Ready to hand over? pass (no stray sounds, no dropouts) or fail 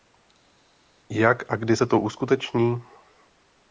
pass